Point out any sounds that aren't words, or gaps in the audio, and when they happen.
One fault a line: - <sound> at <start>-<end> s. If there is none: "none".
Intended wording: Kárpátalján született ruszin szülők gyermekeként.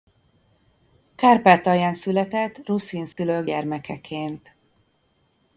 - dropout at 3.1-3.2 s